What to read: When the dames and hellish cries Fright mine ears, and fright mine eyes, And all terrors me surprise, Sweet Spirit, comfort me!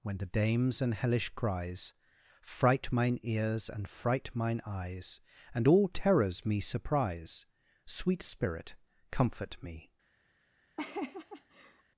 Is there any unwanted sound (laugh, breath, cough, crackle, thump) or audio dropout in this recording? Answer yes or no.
yes